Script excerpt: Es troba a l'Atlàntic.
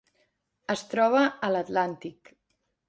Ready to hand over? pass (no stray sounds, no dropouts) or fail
pass